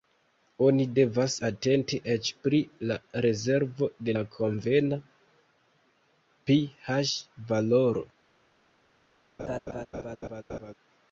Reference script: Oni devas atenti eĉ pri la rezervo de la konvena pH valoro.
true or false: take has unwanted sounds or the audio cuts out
true